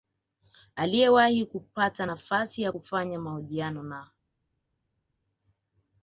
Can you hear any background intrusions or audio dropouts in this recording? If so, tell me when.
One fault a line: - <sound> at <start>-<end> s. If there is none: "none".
none